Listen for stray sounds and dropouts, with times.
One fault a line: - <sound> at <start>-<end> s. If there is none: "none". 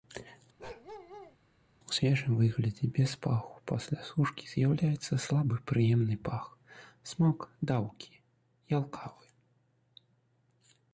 - bark at 0.6-1.4 s